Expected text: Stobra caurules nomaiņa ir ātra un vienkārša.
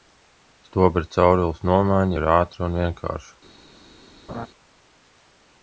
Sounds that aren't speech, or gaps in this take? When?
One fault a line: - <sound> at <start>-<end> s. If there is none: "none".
- laugh at 4.3-4.5 s